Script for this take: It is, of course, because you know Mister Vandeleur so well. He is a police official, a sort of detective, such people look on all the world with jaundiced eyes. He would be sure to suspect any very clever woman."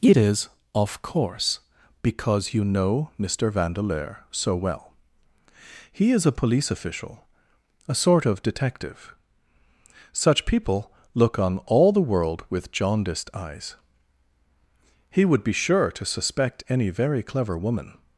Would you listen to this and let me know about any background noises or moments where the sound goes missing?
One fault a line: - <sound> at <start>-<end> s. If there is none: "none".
none